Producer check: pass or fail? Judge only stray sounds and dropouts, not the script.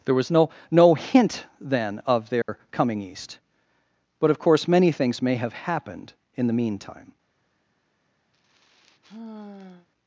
fail